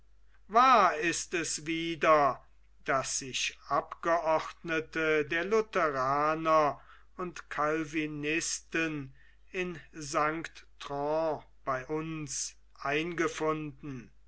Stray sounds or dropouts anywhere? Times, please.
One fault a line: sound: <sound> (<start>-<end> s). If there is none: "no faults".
no faults